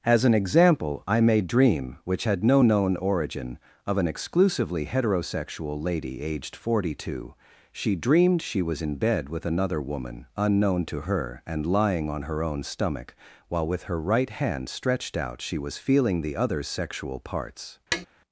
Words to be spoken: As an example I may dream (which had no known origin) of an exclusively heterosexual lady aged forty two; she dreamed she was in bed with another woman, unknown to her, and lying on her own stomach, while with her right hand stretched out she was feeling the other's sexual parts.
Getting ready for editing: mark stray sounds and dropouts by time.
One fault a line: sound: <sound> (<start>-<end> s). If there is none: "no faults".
sound: tap (17.9-18.1 s)